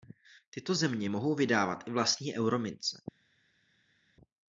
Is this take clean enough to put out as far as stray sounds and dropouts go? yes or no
yes